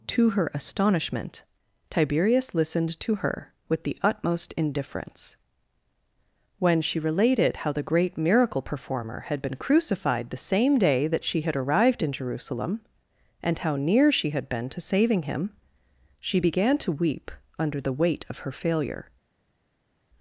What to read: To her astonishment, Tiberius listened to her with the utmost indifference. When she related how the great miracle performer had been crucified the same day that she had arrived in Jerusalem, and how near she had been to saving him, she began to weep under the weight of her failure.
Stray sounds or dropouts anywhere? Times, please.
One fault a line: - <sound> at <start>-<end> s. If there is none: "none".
none